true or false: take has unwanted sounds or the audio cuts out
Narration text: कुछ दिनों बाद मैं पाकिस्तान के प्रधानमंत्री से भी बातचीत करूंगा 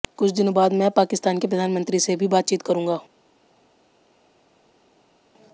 false